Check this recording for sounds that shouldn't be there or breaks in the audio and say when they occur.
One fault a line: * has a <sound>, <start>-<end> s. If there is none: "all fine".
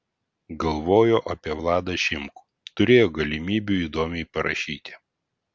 all fine